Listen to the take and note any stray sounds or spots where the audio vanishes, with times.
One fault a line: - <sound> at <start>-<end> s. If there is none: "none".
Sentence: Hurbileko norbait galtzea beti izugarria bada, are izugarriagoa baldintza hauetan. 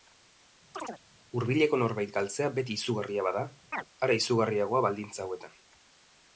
- chirp at 0.7-1.0 s
- chirp at 3.7-3.8 s